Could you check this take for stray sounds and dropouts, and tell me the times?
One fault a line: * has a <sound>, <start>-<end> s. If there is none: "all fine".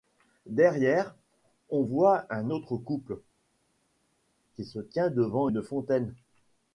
all fine